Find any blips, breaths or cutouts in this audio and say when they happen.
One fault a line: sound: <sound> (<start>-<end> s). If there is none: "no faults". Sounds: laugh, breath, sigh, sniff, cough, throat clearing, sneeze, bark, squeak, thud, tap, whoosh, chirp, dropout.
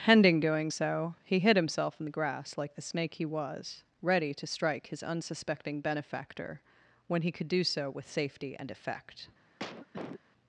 sound: cough (9.6-10.2 s)